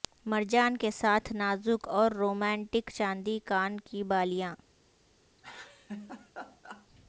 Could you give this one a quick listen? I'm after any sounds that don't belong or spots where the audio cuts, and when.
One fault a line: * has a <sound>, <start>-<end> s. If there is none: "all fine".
* has a laugh, 5.4-6.9 s